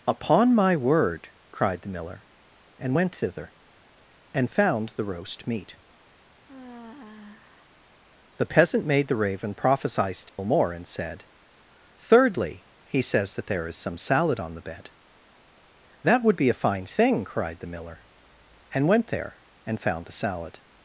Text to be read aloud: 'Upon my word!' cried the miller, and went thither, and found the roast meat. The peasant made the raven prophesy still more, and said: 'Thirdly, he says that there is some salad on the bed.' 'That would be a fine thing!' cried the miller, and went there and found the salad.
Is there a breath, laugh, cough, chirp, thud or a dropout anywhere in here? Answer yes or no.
yes